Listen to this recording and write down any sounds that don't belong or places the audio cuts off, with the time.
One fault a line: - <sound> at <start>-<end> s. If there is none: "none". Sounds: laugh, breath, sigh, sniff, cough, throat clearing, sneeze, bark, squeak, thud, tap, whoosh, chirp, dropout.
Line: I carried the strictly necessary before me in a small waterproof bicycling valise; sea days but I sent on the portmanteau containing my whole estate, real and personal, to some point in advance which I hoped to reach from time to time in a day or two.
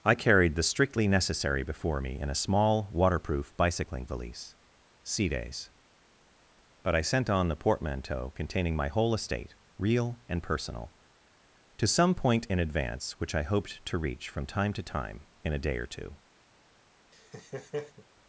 - laugh at 17.1-18.1 s